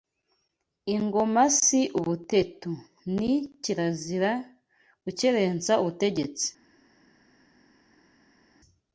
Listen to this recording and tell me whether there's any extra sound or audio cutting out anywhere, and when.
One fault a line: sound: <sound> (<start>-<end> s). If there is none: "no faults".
no faults